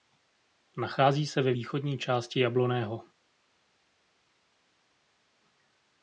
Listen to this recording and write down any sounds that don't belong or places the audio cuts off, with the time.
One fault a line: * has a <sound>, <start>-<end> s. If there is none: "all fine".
all fine